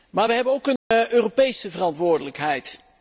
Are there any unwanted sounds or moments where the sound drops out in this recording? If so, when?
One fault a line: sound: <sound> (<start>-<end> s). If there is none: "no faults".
sound: dropout (0.8-0.9 s)